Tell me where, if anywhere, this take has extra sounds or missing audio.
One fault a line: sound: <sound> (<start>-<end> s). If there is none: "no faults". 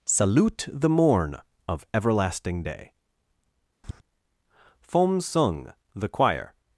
sound: tap (3.8-4.0 s)